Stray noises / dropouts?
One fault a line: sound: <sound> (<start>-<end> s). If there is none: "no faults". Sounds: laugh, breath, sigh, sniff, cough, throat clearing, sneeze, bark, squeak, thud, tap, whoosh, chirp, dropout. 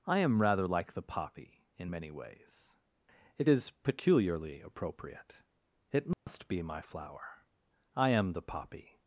sound: dropout (6.1-6.3 s)